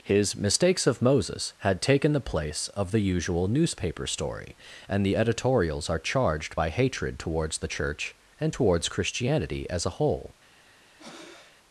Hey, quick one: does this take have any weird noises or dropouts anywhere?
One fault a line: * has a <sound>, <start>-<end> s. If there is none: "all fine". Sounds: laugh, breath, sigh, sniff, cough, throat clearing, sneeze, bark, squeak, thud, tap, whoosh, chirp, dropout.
* has a breath, 11.0-11.6 s